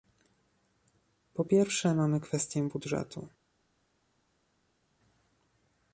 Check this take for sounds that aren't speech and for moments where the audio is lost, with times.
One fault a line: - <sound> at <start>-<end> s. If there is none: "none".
none